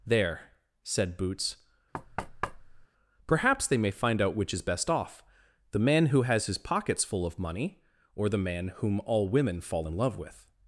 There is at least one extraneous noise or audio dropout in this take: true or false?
true